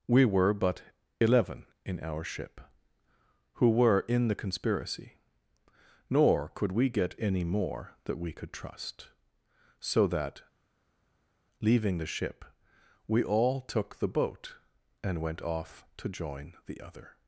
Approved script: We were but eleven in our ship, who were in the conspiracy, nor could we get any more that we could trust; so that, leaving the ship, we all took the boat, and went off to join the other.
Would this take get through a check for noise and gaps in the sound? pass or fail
pass